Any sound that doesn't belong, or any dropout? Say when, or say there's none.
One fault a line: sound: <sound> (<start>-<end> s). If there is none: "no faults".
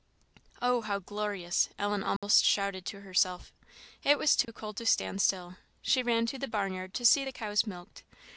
sound: dropout (2.2-2.2 s)
sound: dropout (4.4-4.5 s)